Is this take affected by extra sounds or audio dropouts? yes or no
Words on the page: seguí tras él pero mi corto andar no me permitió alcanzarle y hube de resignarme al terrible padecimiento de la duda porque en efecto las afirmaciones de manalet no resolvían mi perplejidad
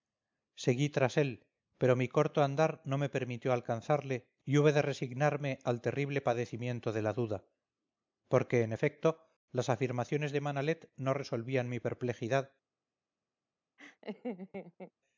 yes